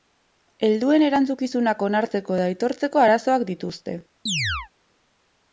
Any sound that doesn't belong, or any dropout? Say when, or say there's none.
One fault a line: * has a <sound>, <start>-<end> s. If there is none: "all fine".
* has a chirp, 4.3-4.7 s